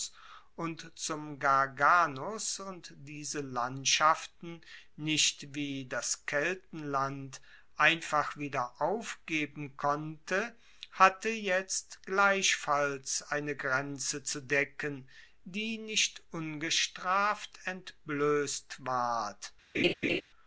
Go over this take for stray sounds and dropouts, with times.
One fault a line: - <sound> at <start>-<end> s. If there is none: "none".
- laugh at 19.7-20.2 s